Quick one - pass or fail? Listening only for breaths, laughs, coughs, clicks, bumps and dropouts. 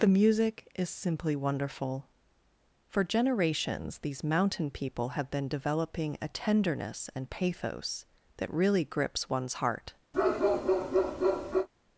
fail